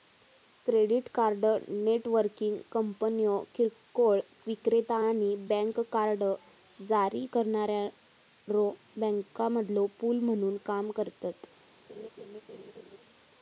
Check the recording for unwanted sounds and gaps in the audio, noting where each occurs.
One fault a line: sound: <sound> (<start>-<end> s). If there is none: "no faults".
sound: laugh (11.9-13.0 s)